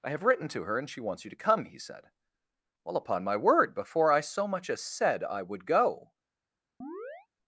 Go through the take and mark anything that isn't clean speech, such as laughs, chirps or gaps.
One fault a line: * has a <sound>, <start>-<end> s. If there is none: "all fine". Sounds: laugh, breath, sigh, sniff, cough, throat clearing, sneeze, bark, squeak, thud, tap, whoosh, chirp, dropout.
* has a chirp, 6.8-7.3 s